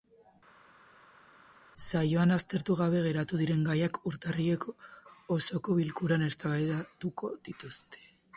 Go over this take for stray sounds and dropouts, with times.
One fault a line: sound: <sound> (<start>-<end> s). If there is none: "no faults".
no faults